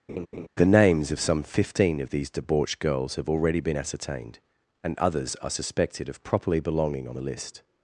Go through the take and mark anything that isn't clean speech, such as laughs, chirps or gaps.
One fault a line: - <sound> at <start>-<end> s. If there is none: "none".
- laugh at 0.1-0.5 s